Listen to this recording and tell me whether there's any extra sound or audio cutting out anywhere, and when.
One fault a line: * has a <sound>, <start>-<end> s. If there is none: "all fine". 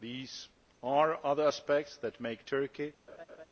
* has a laugh, 3.1-3.5 s